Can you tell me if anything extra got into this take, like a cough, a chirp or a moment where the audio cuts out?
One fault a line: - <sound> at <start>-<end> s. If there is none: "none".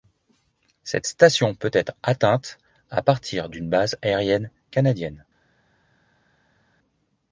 none